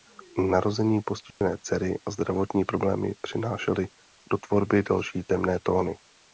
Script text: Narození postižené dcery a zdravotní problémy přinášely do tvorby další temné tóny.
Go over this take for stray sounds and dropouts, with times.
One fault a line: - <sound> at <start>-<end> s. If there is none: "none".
- dropout at 1.3-1.4 s